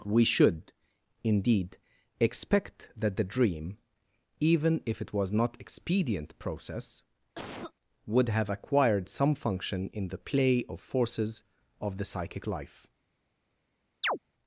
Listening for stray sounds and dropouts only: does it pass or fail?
fail